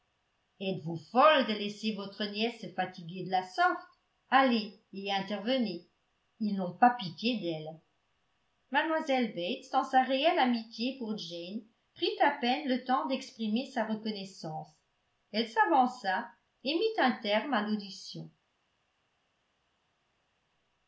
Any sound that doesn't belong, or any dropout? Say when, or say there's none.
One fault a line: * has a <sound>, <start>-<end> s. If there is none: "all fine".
all fine